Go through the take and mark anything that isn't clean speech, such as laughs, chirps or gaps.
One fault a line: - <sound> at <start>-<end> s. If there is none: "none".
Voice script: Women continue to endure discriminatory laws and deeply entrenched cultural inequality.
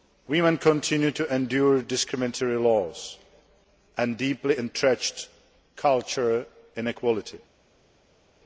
none